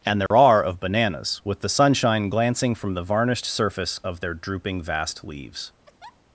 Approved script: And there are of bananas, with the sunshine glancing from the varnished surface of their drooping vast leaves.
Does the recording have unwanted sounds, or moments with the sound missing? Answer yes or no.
yes